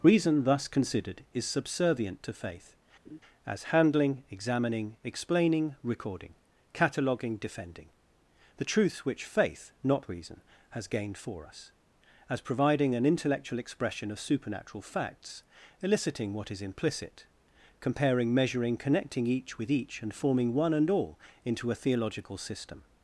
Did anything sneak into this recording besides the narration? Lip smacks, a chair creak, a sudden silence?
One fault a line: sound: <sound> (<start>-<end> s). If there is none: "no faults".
sound: laugh (3.0-3.2 s)